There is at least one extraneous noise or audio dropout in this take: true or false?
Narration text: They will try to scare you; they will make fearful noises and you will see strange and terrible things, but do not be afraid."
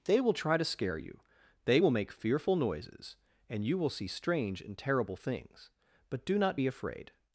false